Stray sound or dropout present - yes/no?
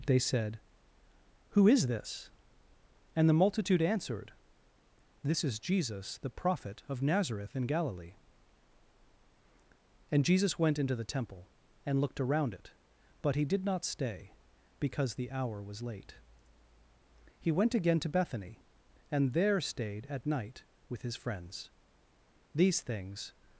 no